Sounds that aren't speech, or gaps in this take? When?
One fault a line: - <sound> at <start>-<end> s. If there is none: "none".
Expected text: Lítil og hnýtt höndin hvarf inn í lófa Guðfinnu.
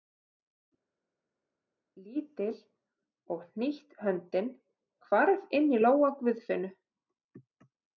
none